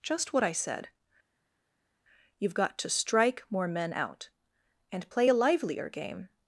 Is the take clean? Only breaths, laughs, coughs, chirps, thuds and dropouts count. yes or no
yes